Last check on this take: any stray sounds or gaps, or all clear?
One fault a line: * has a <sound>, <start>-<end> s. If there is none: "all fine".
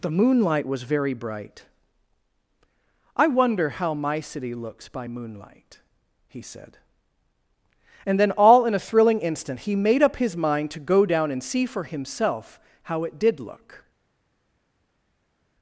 all fine